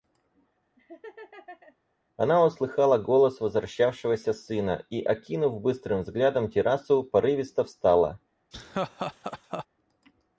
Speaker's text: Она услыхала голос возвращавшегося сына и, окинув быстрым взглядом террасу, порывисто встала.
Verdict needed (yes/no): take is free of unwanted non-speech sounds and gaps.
no